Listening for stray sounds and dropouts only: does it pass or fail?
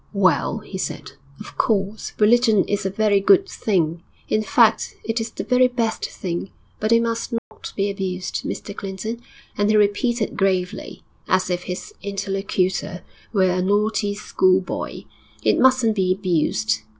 fail